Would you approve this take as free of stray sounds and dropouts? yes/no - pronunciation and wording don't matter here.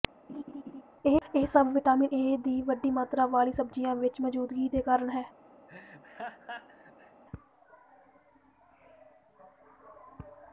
no